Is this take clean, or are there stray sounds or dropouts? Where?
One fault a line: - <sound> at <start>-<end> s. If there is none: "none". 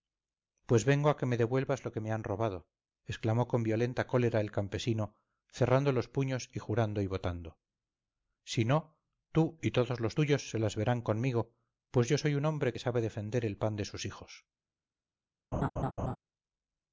- laugh at 15.5-16.2 s